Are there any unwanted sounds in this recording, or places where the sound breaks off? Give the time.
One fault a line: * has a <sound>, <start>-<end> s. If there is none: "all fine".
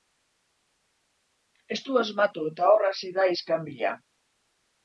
all fine